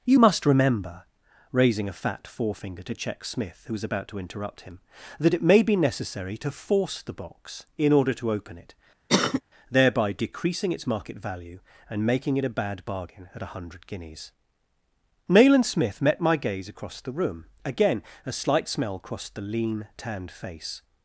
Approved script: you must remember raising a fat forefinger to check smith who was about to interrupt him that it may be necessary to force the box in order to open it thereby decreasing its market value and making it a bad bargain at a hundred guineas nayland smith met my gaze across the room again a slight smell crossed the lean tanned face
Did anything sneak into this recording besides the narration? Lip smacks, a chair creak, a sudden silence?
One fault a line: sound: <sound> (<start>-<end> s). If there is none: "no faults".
sound: cough (9.1-9.4 s)